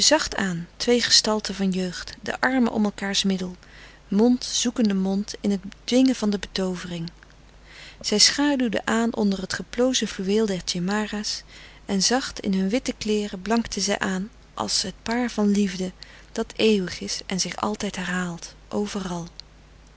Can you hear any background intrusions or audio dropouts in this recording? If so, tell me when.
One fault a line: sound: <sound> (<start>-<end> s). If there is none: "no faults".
no faults